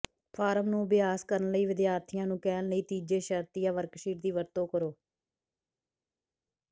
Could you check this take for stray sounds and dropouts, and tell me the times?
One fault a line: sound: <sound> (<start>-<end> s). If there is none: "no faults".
no faults